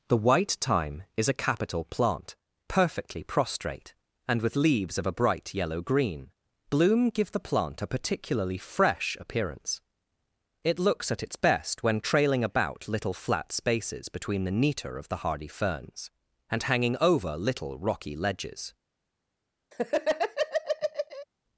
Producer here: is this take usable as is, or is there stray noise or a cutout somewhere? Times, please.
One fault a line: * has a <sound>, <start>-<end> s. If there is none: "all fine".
* has a laugh, 19.7-21.3 s